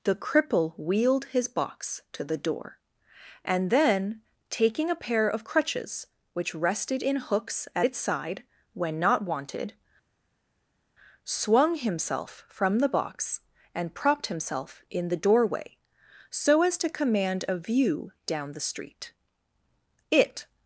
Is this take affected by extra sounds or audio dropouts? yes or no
no